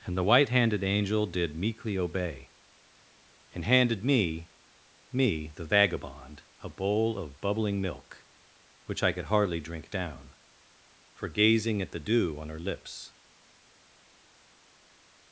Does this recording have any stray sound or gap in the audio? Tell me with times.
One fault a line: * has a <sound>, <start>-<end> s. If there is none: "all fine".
all fine